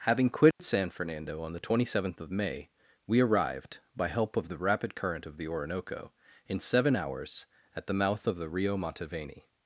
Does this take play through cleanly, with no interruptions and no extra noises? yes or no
no